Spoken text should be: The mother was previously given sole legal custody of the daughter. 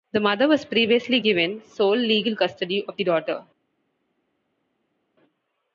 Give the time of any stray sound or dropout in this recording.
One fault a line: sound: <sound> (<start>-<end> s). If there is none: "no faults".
no faults